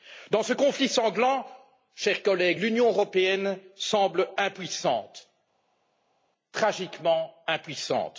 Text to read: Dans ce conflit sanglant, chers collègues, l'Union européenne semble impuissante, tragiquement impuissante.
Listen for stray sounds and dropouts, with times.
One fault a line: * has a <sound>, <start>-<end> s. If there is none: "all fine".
all fine